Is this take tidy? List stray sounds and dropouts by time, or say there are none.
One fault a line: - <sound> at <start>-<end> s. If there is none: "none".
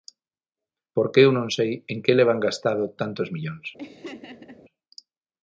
- laugh at 3.8-4.6 s